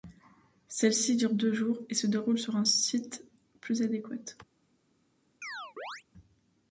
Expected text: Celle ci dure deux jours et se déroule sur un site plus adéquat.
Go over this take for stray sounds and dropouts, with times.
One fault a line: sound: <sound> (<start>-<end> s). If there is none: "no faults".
sound: chirp (5.4-6.0 s)